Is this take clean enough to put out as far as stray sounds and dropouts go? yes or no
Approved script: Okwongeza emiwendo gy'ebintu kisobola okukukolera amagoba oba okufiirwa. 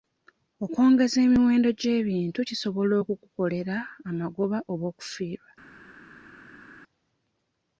yes